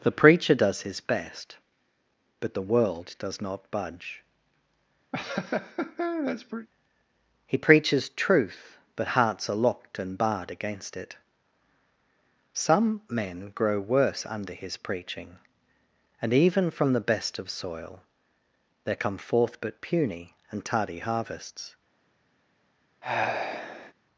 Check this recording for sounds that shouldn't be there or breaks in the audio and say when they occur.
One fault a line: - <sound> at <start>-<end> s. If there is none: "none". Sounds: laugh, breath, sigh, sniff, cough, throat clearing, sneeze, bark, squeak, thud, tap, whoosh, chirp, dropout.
- laugh at 5.1-6.7 s
- sigh at 23.0-23.9 s